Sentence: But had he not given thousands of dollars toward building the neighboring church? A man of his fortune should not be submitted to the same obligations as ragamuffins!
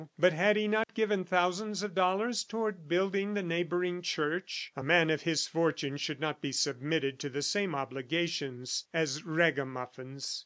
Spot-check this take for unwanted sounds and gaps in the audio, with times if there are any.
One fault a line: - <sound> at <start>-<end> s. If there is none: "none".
- dropout at 0.8-0.9 s